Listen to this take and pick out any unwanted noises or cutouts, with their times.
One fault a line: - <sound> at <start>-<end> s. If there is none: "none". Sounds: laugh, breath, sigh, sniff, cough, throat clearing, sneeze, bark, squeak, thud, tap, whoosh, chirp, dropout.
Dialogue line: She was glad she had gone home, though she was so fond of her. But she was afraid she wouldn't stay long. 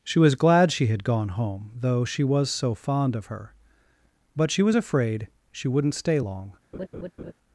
- laugh at 6.7-7.3 s